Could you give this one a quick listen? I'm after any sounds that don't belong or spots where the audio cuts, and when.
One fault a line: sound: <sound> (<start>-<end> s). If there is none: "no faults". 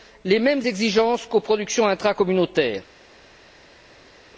no faults